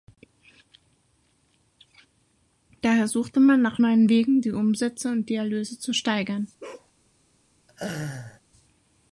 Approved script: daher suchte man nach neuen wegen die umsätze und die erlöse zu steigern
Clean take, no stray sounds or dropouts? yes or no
no